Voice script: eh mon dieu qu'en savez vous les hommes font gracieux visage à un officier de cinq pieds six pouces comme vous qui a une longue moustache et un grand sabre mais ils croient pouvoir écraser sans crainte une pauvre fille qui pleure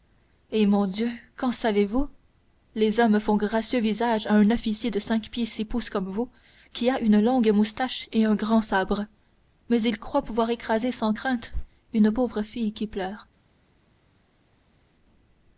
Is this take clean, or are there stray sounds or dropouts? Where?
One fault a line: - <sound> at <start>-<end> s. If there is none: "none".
none